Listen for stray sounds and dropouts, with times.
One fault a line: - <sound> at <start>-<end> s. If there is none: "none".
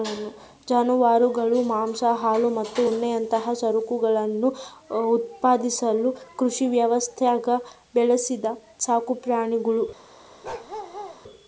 - bark at 10.4-11.2 s